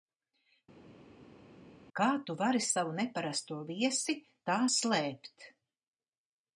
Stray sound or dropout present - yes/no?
no